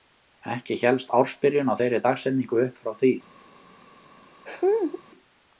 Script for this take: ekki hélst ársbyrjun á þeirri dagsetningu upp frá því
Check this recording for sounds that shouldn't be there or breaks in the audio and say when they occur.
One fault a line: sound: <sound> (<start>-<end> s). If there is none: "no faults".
sound: laugh (4.5-5.0 s)